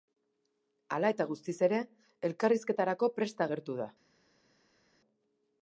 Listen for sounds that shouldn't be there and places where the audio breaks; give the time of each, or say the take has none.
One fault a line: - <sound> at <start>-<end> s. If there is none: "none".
none